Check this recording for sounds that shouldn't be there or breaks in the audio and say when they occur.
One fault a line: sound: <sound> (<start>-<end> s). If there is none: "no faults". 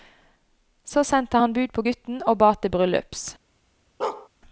sound: bark (4.0-4.3 s)